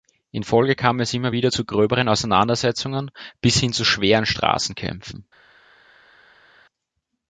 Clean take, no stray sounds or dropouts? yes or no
yes